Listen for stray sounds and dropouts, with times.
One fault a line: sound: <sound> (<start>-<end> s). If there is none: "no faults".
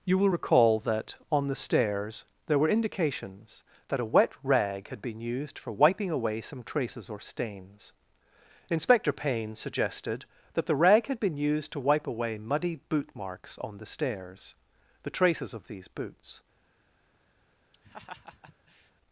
sound: laugh (17.7-18.9 s)